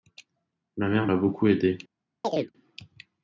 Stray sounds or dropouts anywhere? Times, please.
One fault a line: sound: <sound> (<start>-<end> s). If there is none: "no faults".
sound: chirp (2.2-2.5 s)